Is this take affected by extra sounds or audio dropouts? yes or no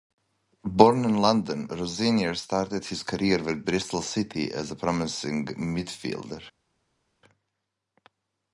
no